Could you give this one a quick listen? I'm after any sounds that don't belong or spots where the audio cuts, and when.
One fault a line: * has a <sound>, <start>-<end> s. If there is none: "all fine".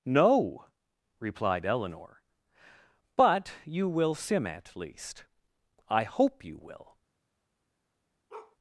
* has a bark, 8.3-8.6 s